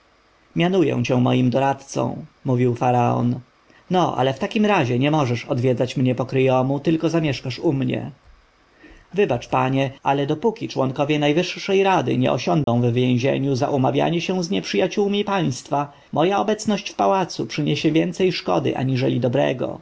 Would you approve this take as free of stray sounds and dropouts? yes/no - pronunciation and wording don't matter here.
no